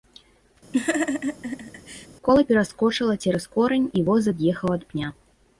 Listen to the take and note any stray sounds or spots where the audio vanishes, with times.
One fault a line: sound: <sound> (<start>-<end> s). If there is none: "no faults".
sound: laugh (0.7-2.1 s)